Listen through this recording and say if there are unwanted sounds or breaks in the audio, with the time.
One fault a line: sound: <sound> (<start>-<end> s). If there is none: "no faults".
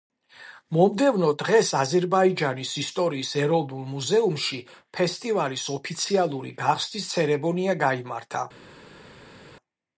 no faults